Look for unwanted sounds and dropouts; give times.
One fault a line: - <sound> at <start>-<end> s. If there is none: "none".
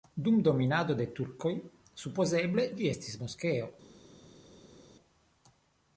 none